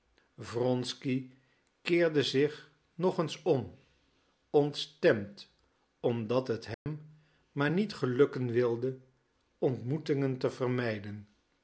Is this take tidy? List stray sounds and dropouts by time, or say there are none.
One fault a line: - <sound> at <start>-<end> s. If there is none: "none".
- dropout at 6.7-6.9 s